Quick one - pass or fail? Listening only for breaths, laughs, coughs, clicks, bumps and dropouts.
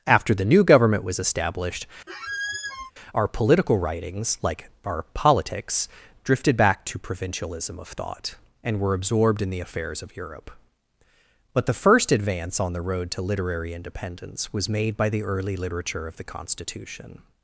fail